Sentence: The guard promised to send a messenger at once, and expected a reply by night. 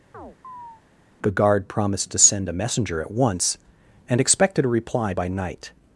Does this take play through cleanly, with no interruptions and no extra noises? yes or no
no